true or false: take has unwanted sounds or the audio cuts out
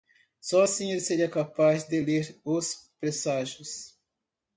false